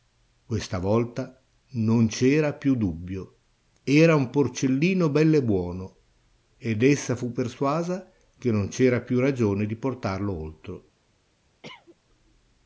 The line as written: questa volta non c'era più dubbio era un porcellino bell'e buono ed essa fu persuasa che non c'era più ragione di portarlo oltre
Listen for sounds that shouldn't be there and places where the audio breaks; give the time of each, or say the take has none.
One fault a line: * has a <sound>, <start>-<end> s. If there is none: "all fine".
* has a cough, 11.6-12.0 s